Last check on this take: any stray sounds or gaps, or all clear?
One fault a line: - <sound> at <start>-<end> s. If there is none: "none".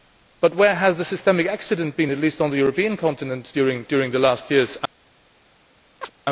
- chirp at 6.0-6.1 s